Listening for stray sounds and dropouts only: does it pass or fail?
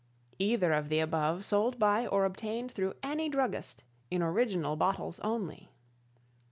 pass